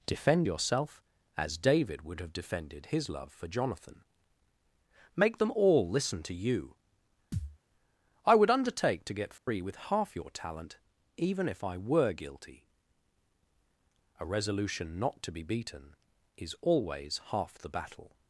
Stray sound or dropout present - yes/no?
yes